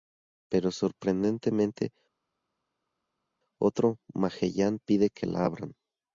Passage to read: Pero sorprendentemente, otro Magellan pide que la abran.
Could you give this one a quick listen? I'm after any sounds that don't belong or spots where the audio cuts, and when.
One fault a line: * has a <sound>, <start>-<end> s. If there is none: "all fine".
all fine